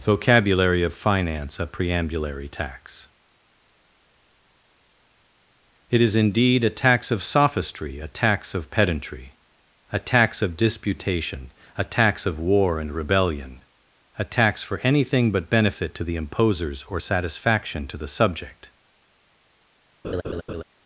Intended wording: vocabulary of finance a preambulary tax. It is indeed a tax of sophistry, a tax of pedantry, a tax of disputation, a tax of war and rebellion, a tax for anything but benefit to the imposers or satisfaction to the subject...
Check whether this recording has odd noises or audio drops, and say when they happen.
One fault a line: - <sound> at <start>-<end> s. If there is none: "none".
- laugh at 20.0-20.6 s